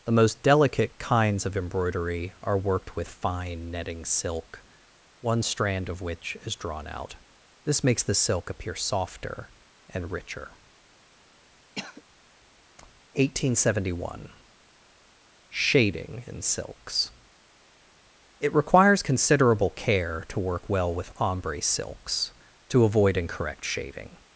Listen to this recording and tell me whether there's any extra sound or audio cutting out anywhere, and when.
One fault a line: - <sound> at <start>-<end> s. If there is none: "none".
- cough at 11.8-12.0 s